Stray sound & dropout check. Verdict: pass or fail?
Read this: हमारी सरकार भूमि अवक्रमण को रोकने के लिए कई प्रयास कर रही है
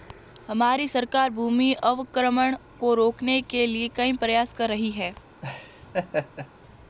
fail